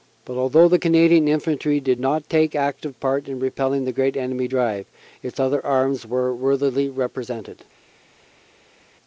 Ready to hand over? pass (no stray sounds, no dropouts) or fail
pass